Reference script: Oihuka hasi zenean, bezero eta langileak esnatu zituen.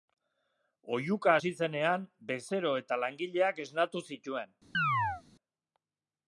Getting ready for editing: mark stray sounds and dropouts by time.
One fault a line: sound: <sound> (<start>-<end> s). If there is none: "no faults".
sound: chirp (4.7-5.2 s)